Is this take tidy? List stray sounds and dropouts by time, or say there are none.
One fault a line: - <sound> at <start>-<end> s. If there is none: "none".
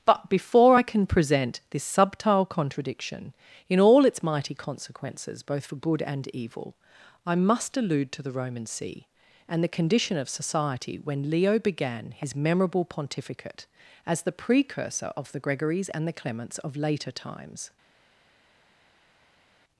none